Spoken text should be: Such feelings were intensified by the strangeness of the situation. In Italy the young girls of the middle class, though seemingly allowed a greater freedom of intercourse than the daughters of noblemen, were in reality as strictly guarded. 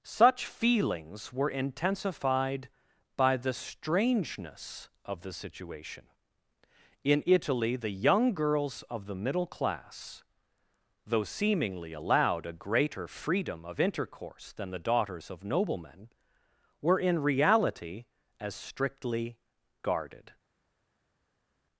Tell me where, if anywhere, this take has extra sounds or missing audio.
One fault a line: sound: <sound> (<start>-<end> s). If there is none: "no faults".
no faults